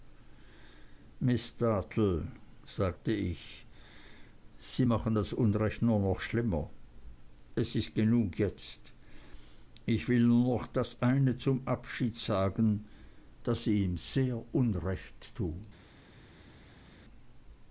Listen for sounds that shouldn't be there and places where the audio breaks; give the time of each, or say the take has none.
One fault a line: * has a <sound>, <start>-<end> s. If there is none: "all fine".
all fine